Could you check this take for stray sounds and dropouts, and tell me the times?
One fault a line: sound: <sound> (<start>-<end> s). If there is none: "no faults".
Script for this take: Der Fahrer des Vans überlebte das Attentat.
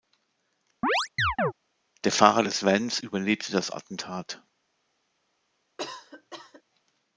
sound: chirp (0.8-1.5 s)
sound: cough (5.8-6.6 s)